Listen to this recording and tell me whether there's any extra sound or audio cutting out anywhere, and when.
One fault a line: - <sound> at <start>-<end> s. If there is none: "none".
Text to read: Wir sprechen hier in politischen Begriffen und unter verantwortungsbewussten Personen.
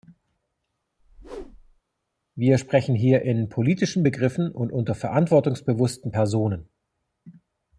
- whoosh at 1.0-1.8 s